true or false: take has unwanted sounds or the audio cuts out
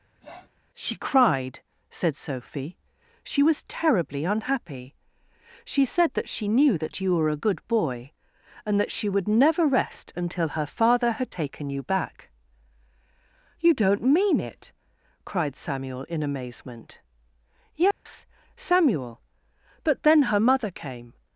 true